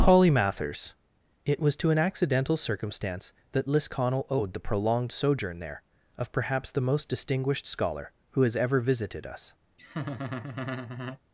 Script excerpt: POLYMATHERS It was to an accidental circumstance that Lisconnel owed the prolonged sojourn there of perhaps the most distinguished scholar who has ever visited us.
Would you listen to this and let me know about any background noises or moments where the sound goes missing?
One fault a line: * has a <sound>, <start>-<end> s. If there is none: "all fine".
* has a laugh, 9.8-11.2 s